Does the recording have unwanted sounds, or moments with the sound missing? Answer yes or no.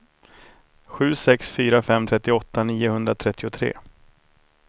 no